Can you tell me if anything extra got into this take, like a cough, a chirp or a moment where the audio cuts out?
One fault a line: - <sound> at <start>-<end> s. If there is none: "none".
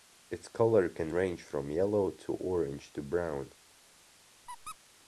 - squeak at 4.5-4.8 s